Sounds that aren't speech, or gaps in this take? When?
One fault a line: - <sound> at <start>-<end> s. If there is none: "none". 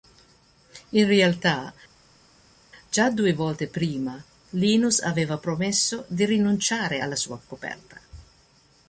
none